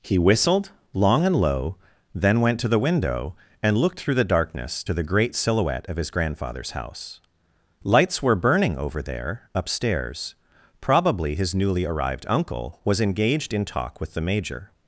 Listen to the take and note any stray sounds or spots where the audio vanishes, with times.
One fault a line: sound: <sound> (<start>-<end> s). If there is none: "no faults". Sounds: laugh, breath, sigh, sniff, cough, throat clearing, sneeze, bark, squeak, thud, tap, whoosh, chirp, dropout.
no faults